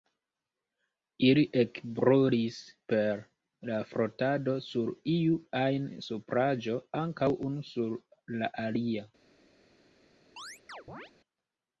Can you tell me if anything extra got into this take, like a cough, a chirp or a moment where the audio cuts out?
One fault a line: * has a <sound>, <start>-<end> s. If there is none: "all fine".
* has a chirp, 10.4-11.1 s